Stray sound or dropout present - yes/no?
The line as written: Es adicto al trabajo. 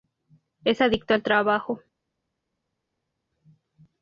no